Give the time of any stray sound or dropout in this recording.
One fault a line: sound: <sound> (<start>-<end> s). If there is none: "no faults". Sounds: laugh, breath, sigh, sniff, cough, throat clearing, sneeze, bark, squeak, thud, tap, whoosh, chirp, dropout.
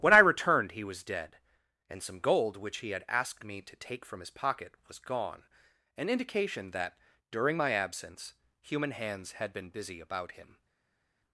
no faults